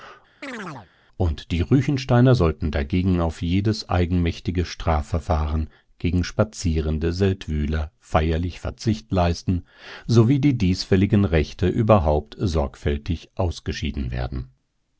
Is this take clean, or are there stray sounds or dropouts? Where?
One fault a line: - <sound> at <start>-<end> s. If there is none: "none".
- chirp at 0.4-0.9 s